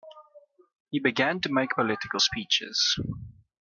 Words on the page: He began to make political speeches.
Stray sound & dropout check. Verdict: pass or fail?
pass